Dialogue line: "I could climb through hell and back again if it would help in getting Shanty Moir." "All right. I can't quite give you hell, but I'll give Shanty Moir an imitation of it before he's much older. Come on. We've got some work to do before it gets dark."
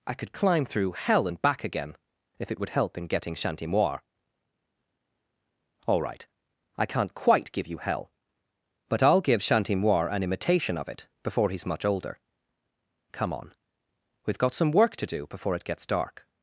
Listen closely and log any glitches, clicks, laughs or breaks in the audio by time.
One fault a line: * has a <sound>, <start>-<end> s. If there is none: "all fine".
all fine